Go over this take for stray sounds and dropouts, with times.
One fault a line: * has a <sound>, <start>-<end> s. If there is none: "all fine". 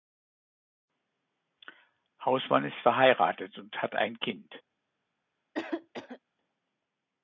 * has a cough, 5.5-6.2 s